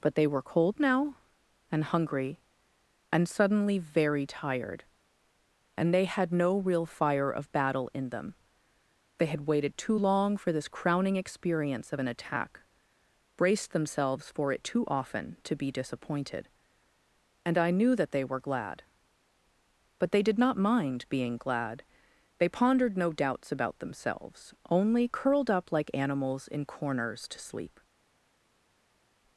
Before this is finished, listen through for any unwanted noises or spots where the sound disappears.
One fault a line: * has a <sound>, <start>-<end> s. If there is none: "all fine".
all fine